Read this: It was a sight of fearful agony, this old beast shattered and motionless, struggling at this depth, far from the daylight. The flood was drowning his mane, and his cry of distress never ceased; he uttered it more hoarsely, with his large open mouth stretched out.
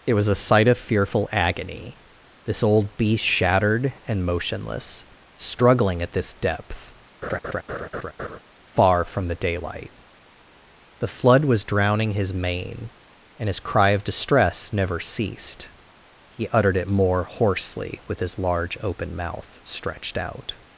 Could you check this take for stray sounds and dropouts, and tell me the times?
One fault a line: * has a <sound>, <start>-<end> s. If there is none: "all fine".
* has a laugh, 7.2-8.4 s